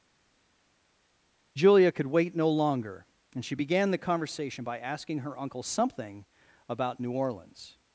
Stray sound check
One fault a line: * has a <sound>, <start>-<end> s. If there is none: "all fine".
all fine